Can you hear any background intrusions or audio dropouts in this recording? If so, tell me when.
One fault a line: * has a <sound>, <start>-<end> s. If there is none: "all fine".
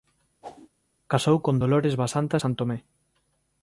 * has a whoosh, 0.4-0.7 s